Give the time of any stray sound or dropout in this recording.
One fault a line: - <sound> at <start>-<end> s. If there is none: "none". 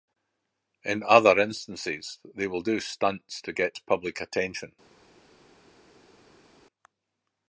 none